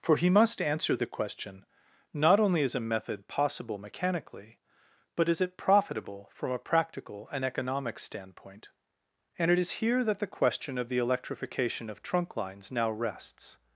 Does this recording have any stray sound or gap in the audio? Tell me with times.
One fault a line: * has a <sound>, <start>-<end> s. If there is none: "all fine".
all fine